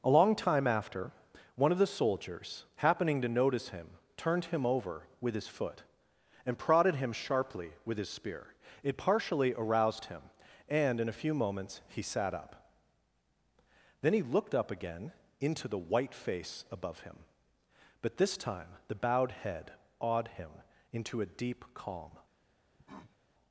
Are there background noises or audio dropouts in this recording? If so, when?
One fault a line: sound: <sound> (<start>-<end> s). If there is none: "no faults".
sound: cough (22.7-23.2 s)